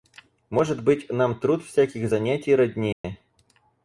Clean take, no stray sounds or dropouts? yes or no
no